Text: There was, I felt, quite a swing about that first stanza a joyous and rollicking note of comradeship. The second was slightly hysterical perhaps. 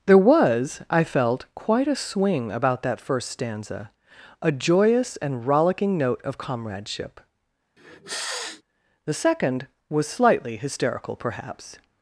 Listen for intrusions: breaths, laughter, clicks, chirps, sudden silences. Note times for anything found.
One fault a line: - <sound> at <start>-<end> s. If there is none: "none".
- sniff at 7.8-8.6 s